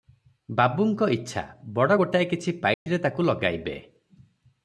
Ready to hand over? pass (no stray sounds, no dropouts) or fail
fail